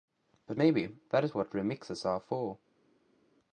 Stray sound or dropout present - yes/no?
no